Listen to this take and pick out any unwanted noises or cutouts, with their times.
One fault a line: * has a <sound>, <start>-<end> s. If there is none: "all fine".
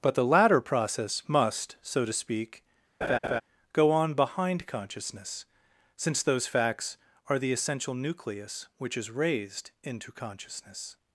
* has a laugh, 3.0-3.4 s